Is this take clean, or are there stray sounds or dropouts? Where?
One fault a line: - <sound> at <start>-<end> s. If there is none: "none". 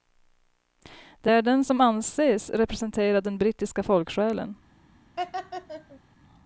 - laugh at 5.2-6.0 s